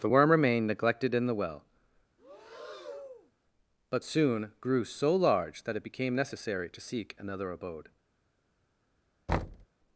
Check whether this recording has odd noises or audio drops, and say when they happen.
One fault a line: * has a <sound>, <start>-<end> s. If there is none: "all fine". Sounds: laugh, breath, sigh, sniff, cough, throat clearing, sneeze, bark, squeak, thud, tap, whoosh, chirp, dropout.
* has a breath, 2.2-3.3 s
* has a thud, 9.3-9.7 s